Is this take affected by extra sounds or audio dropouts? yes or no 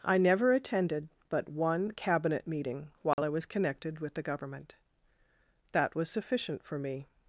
yes